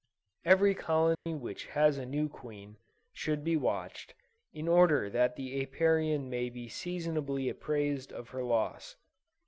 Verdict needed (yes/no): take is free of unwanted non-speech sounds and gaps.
no